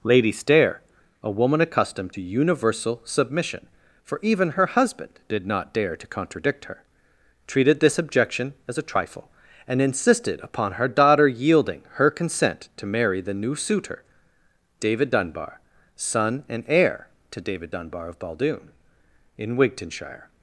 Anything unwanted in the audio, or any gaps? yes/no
no